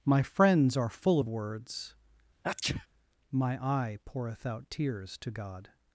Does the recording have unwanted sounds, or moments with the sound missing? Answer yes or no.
yes